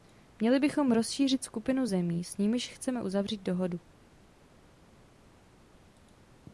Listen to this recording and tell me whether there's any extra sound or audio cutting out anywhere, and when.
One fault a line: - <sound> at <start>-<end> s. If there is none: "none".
none